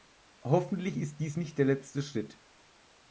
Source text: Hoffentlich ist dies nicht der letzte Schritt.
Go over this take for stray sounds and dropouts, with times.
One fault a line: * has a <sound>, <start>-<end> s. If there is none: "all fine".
all fine